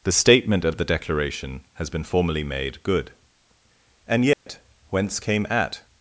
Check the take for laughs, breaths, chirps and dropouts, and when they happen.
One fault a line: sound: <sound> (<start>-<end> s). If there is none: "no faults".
sound: dropout (4.3-4.5 s)